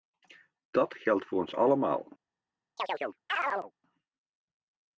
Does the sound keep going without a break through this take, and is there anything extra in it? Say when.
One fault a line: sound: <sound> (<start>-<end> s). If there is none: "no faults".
sound: chirp (2.8-3.7 s)